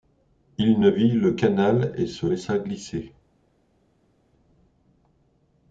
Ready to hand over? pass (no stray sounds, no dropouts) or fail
pass